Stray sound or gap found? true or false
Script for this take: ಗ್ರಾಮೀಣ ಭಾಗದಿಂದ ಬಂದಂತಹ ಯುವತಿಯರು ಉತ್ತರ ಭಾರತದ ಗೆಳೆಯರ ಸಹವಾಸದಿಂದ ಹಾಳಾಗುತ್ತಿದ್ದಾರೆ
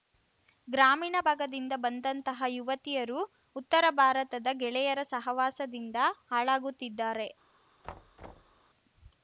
true